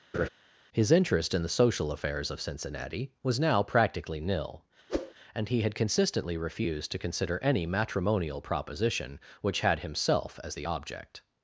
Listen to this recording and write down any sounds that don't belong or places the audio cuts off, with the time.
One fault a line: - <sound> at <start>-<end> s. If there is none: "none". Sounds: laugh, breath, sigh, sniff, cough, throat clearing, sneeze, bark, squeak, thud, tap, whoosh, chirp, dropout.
- laugh at 0.1-0.3 s
- whoosh at 4.9-5.1 s